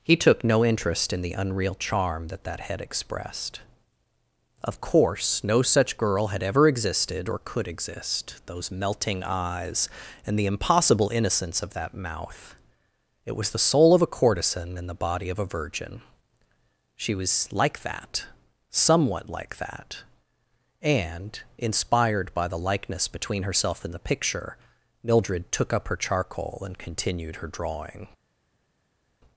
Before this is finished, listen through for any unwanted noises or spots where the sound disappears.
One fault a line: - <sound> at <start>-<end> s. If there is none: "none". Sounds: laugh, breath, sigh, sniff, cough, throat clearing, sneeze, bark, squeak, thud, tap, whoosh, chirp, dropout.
none